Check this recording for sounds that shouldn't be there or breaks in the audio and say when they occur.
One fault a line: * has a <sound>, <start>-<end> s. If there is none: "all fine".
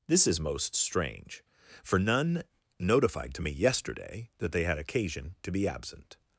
all fine